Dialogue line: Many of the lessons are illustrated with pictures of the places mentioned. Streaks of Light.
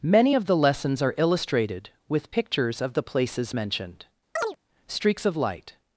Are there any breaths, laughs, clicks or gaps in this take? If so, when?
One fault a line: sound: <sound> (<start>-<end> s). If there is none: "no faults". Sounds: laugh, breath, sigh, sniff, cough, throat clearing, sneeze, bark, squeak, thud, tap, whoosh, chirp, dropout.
sound: chirp (4.4-4.6 s)